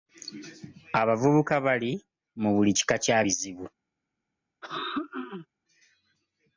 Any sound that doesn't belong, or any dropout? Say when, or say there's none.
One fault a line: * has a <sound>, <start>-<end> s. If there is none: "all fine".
* has a throat clearing, 4.6-5.5 s